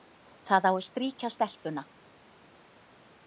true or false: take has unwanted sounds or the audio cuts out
false